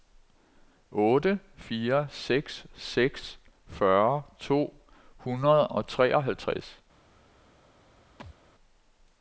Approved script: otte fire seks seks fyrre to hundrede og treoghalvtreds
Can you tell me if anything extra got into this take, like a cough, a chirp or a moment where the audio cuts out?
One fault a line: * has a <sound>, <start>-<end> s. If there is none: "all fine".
* has a thud, 8.2-8.4 s